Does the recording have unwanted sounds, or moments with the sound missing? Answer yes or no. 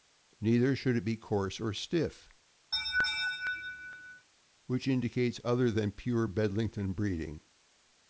yes